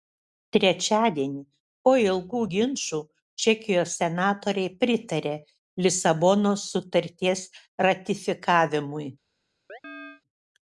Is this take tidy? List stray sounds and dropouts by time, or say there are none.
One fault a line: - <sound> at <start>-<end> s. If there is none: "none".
- chirp at 9.7-10.2 s